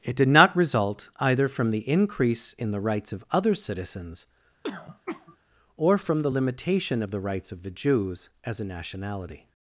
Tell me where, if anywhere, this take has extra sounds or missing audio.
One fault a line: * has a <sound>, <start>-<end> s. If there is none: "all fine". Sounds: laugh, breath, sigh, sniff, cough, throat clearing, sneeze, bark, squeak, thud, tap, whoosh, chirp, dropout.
* has a throat clearing, 4.6-5.4 s